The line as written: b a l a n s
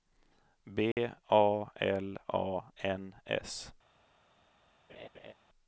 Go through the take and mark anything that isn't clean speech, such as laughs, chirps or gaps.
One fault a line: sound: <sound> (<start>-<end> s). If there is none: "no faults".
sound: dropout (0.9-1.0 s)
sound: laugh (4.9-5.3 s)